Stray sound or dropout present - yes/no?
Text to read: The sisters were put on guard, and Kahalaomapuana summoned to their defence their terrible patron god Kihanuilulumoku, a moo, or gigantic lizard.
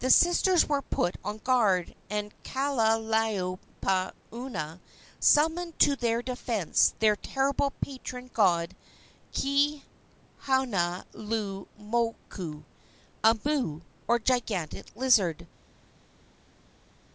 no